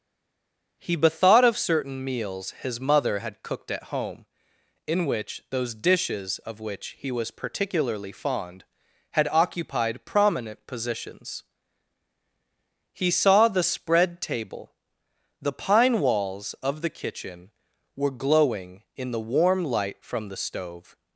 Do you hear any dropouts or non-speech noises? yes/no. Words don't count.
no